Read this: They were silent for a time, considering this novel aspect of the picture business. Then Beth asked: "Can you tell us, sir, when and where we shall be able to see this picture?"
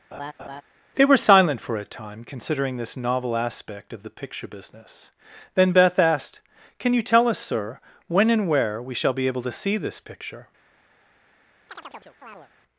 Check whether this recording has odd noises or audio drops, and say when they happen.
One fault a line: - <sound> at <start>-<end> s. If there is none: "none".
- laugh at 0.1-0.6 s
- chirp at 11.7-12.5 s